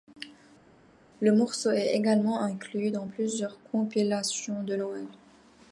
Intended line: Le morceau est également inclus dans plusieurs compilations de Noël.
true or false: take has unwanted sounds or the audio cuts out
false